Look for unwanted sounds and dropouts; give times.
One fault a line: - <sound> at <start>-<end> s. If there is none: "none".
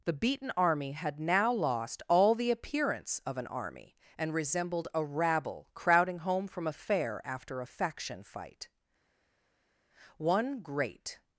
none